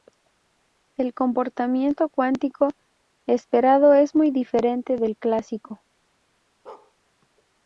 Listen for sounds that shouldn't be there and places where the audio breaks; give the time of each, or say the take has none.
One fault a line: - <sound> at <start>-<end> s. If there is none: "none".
- bark at 6.7-6.9 s